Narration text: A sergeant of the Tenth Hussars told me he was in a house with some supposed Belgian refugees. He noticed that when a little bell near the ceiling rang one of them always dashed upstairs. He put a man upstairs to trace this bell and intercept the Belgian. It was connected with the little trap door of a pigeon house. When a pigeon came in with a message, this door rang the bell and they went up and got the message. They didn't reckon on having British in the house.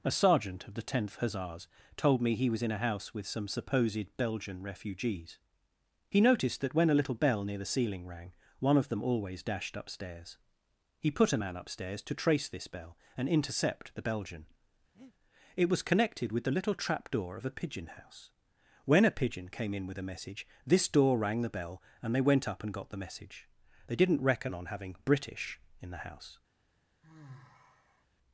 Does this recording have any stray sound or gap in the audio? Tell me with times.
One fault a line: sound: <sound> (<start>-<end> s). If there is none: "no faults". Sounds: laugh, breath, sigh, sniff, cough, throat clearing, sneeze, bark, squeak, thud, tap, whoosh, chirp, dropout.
sound: breath (14.9-15.1 s)
sound: sigh (27.0-28.1 s)